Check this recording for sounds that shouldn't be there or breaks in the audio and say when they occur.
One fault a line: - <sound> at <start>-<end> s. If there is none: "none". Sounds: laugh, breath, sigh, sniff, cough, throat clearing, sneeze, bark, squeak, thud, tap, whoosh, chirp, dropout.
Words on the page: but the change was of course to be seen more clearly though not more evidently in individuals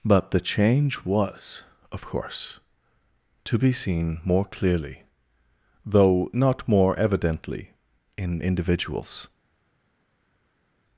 none